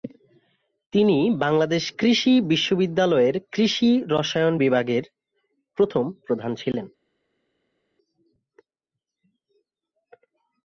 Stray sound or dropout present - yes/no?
no